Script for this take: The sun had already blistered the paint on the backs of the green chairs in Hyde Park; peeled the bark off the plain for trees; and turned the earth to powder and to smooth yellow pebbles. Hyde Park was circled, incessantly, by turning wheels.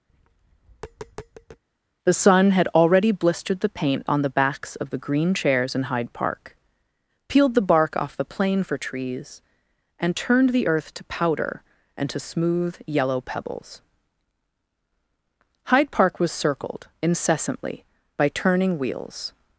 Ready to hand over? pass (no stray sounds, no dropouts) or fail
fail